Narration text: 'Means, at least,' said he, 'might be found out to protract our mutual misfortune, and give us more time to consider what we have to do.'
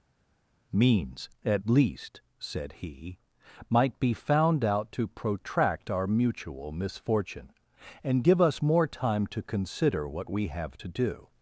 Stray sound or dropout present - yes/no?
no